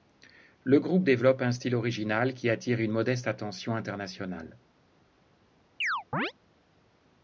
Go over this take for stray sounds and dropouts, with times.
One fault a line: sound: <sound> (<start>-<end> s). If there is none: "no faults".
sound: chirp (5.8-6.3 s)